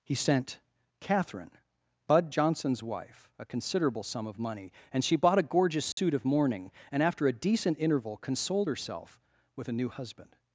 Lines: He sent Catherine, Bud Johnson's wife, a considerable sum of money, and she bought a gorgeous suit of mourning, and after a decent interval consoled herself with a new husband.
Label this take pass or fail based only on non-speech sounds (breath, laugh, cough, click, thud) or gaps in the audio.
fail